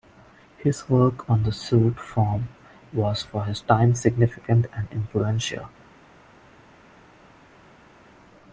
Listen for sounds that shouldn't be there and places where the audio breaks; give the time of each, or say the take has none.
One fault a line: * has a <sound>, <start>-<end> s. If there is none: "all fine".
all fine